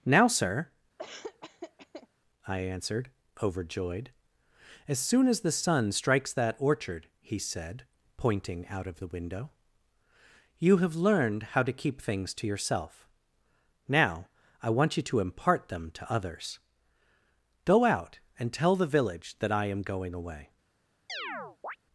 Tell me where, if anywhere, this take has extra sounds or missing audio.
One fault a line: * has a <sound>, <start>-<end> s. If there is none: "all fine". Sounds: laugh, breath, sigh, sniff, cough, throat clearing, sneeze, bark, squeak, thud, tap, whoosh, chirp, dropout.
* has a laugh, 1.0-2.1 s
* has a chirp, 21.1-21.8 s